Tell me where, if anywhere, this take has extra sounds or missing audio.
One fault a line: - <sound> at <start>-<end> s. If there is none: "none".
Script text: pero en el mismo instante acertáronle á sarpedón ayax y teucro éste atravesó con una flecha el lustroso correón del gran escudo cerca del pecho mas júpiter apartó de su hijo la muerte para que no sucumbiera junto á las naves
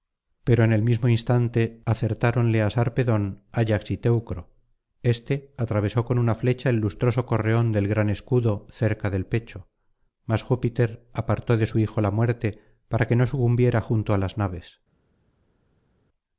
none